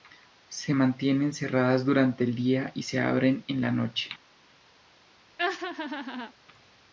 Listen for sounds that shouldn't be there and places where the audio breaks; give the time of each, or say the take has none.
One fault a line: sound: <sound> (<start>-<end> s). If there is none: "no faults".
sound: laugh (5.4-6.3 s)